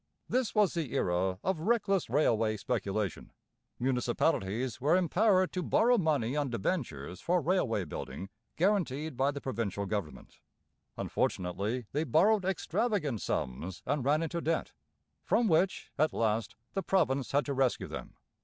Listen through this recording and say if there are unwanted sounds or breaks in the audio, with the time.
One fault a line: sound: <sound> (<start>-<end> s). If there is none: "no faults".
no faults